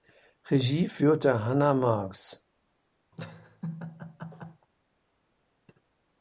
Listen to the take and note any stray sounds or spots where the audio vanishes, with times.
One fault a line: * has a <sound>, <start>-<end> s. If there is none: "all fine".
* has a laugh, 3.1-4.7 s